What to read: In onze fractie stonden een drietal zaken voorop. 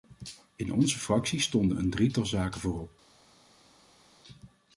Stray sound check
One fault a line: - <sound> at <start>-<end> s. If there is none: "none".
none